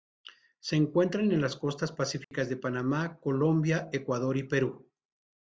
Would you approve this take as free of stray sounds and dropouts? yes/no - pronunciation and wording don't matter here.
no